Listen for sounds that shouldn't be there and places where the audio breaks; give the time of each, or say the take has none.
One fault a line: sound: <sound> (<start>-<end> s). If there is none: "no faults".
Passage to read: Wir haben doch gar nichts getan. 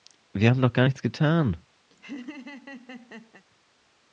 sound: laugh (1.9-3.4 s)